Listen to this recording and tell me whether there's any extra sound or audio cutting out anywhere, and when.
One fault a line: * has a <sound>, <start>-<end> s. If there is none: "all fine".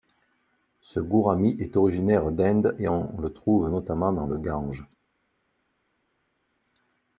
all fine